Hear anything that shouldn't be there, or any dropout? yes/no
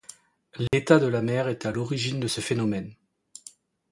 yes